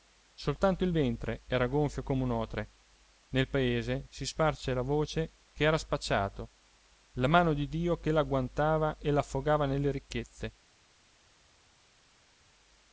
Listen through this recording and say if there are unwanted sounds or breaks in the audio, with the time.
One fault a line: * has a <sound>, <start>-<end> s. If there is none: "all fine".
all fine